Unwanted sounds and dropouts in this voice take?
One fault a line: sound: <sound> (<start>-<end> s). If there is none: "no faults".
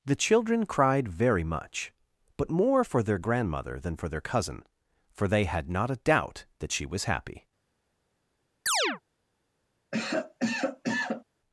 sound: chirp (8.7-9.0 s)
sound: cough (9.9-11.2 s)